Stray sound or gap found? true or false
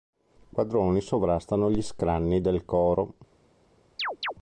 true